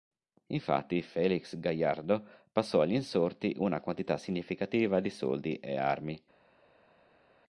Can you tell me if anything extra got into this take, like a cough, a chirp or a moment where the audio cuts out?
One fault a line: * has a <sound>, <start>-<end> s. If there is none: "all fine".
all fine